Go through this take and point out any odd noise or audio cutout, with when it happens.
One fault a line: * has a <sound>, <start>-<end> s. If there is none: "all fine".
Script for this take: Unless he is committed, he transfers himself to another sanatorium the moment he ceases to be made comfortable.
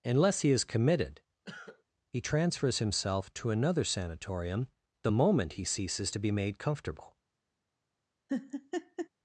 * has a cough, 1.4-1.8 s
* has a laugh, 8.3-9.1 s